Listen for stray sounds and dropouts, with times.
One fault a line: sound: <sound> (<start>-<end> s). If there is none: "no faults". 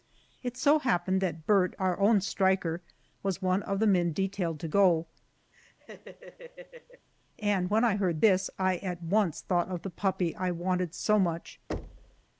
sound: laugh (5.5-7.1 s)
sound: thud (11.7-12.2 s)